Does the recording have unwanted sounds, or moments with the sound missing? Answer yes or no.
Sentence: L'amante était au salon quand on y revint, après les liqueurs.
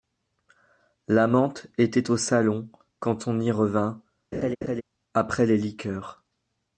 yes